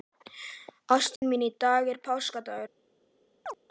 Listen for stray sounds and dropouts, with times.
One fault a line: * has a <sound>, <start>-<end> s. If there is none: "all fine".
* has a dropout, 1.2-1.2 s
* has a chirp, 3.4-3.6 s